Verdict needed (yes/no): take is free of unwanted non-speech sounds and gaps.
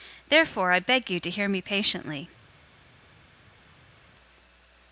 yes